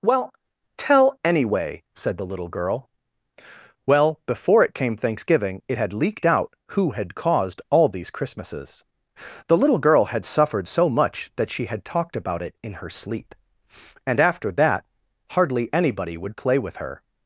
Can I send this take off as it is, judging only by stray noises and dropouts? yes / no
yes